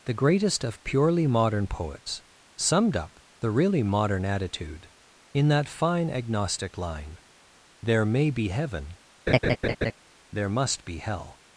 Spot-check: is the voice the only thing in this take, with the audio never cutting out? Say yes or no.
no